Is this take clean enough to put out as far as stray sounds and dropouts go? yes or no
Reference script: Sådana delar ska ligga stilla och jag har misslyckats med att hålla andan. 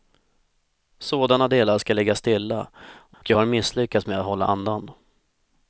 no